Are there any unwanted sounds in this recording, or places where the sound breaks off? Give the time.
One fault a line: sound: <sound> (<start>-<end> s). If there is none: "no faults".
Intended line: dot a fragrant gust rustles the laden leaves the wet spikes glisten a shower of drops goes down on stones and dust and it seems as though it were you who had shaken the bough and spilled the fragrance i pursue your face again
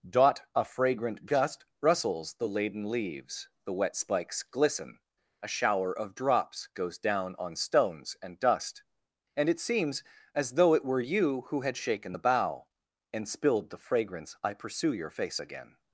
no faults